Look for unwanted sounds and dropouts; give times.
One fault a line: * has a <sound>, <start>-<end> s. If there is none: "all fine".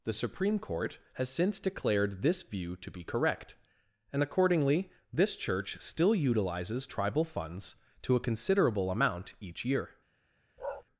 * has a bark, 10.6-10.8 s